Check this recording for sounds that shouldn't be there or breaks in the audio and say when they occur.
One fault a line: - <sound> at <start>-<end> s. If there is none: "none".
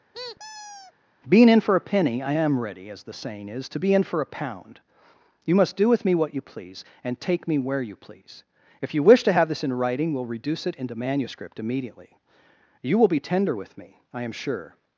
- squeak at 0.1-0.9 s